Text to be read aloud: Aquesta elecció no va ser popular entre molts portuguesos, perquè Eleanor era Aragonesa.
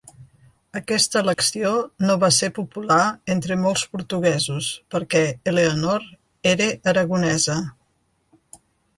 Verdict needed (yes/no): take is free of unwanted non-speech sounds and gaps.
no